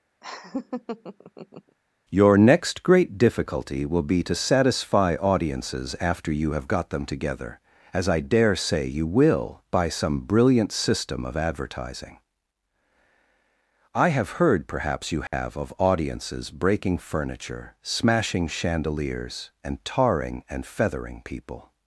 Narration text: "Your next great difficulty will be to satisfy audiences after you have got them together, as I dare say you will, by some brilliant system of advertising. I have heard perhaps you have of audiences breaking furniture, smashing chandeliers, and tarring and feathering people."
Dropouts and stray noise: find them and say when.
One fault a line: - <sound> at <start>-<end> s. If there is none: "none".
- laugh at 0.2-1.8 s
- dropout at 15.3-15.3 s